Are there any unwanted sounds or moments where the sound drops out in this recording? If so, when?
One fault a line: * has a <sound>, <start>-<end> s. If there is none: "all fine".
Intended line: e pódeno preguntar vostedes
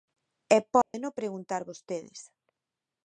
* has a dropout, 0.8-0.9 s